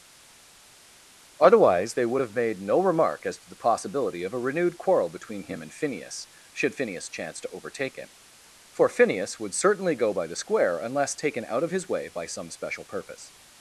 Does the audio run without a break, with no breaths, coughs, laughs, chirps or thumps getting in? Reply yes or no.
yes